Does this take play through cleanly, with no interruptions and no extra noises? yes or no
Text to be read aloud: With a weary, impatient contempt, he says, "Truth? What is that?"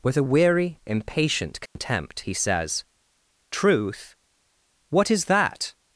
no